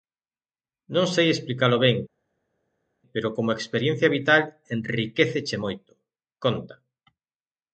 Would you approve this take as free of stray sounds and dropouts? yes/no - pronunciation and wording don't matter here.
yes